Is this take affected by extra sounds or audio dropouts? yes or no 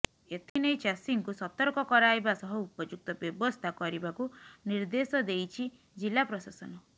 yes